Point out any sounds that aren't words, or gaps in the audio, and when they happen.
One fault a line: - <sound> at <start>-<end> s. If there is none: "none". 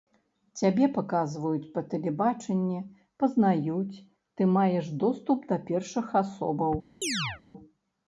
- chirp at 7.0-7.4 s